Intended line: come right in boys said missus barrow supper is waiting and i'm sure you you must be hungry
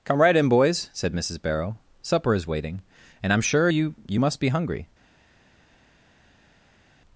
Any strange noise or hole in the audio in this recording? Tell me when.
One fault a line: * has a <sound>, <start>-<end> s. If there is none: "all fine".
all fine